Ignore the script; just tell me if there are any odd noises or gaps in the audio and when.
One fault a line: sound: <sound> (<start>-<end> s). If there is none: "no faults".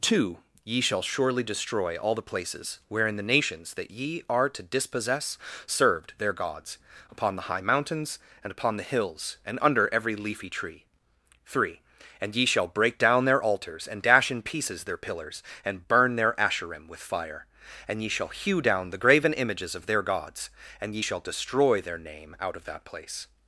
no faults